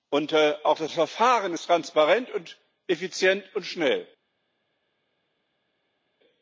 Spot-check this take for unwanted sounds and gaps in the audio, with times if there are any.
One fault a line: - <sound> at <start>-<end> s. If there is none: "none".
none